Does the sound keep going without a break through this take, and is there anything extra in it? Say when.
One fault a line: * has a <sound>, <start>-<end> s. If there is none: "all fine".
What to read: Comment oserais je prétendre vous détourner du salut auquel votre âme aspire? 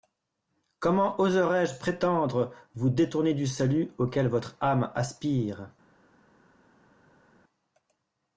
all fine